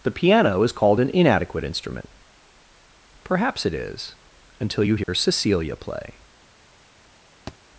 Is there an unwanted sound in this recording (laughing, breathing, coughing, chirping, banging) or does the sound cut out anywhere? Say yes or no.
yes